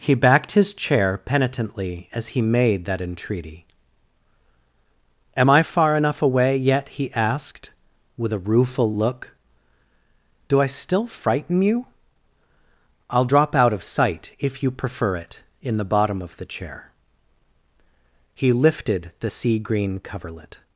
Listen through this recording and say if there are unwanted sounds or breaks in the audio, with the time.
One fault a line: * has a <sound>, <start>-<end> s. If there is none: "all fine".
all fine